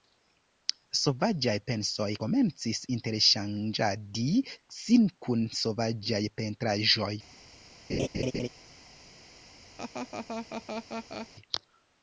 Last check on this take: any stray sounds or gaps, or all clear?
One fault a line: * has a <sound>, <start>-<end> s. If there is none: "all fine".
* has a laugh, 7.9-8.5 s
* has a laugh, 9.8-11.3 s